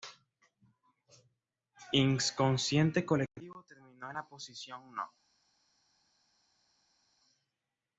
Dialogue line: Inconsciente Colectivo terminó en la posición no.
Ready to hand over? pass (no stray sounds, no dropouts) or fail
pass